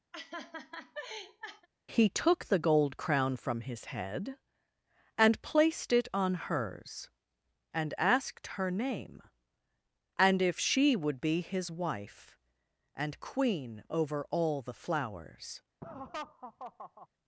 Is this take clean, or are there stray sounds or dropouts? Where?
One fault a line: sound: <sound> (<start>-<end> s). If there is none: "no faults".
sound: laugh (0.1-1.7 s)
sound: laugh (15.8-17.1 s)